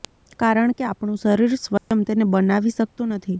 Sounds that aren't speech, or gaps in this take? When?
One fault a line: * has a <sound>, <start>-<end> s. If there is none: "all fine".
* has a dropout, 1.8-1.9 s